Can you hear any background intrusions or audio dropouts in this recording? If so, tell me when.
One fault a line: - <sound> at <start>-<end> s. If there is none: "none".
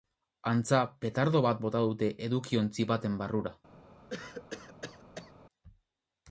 - cough at 4.1-5.3 s